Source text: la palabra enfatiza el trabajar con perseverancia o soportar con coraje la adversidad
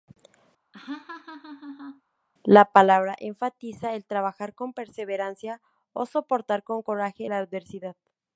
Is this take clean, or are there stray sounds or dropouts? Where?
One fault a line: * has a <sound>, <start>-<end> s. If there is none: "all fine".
* has a laugh, 0.7-2.0 s